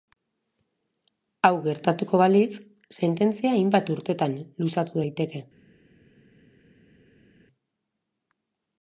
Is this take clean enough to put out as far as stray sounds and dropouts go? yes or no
yes